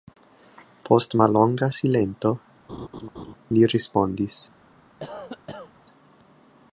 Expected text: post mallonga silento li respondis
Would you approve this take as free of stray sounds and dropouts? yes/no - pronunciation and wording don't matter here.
no